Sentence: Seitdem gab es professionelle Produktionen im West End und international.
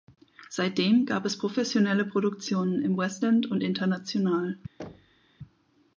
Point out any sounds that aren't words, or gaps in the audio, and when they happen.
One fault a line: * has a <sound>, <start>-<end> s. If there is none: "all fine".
* has a thud, 4.8-5.3 s